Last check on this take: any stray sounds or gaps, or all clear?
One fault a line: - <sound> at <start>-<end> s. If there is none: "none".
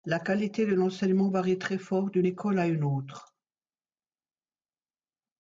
none